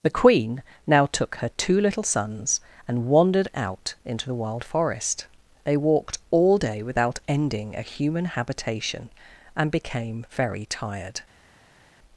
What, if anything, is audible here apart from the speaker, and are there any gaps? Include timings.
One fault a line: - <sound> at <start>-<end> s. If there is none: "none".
none